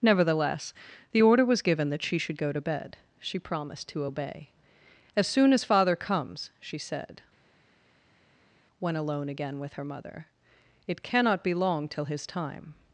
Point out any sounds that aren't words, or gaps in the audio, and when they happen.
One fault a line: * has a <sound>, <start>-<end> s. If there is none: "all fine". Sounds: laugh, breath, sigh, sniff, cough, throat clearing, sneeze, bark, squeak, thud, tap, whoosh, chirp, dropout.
all fine